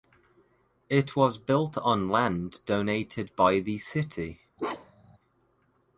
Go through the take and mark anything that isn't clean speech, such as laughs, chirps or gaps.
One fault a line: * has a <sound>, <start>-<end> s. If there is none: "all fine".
* has a bark, 4.6-5.2 s